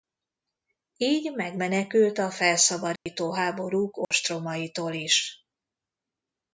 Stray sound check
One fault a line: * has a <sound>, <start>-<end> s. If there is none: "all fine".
* has a dropout, 3.0-3.1 s
* has a dropout, 4.0-4.1 s